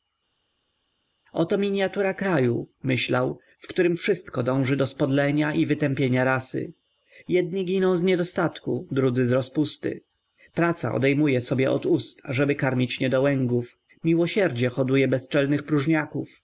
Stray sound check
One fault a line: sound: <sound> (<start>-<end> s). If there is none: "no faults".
no faults